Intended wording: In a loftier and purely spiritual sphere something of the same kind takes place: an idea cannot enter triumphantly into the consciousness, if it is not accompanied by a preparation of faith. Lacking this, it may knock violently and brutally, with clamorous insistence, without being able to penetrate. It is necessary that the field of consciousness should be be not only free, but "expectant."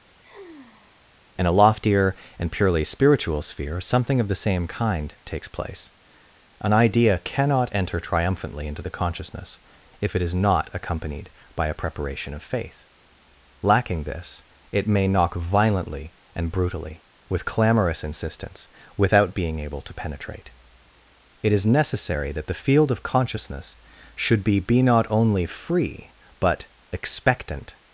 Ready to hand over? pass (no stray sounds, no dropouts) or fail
fail